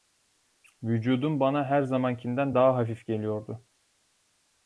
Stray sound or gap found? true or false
false